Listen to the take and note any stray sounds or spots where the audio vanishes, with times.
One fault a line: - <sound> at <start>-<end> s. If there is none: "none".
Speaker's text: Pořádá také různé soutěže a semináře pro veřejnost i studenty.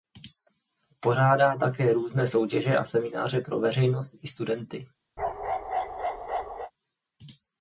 - bark at 5.2-6.7 s